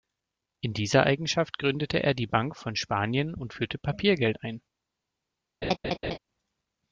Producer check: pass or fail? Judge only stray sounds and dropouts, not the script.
fail